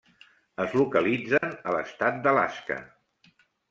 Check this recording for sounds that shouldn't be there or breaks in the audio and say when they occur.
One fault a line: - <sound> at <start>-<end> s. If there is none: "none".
- dropout at 1.4-1.4 s